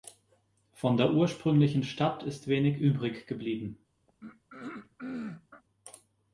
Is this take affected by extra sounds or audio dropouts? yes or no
yes